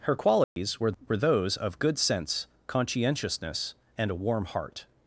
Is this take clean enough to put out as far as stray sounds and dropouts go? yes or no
no